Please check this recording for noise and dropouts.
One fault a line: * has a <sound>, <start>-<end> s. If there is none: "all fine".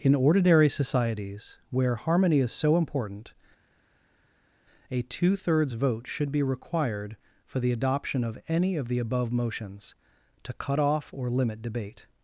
all fine